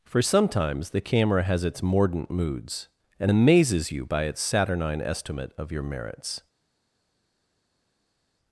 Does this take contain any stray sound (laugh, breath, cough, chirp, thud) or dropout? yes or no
no